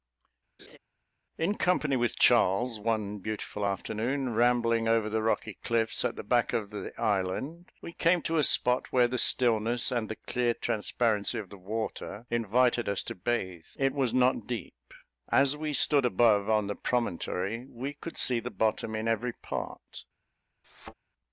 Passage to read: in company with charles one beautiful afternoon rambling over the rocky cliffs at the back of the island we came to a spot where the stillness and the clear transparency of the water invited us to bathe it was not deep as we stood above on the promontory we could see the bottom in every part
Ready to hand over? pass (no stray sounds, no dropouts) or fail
fail